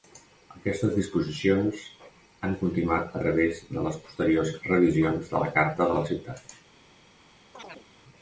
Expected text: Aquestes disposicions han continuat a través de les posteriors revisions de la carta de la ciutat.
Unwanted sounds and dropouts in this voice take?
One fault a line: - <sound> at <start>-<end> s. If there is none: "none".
- chirp at 7.5-7.9 s